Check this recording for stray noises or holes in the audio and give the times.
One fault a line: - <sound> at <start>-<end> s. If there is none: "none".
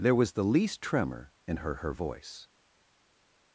none